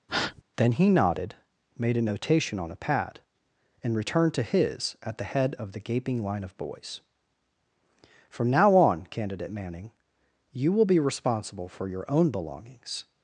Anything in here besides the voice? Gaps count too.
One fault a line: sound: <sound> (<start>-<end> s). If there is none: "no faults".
sound: breath (0.1-0.4 s)